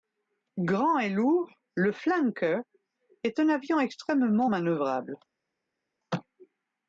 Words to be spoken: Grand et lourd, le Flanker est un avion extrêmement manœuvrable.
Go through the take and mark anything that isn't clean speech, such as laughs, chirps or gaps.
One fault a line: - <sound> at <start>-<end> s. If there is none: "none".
none